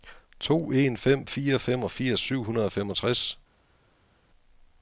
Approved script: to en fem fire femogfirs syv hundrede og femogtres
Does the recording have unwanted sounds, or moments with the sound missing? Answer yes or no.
no